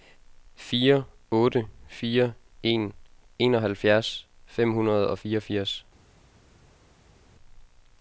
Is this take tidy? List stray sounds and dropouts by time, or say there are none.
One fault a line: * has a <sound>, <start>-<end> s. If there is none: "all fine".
all fine